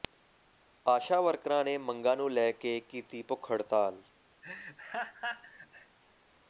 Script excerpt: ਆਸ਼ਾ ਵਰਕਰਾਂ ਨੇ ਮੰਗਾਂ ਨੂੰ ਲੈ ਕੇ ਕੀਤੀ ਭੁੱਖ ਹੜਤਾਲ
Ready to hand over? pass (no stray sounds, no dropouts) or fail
fail